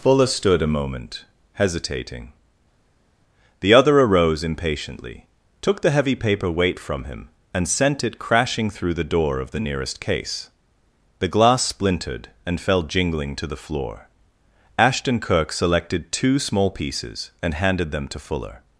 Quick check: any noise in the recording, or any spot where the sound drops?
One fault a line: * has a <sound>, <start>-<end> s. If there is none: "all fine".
all fine